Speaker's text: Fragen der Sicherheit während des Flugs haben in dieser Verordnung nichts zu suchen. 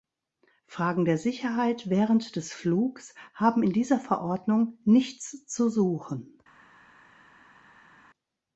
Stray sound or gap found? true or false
false